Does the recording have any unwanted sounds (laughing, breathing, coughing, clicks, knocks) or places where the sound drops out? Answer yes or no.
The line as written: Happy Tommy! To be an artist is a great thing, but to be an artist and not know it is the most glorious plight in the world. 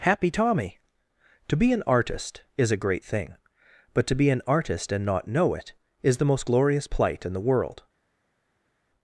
no